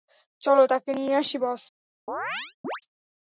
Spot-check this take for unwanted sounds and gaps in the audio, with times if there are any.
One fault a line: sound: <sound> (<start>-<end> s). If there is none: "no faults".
sound: chirp (2.1-2.8 s)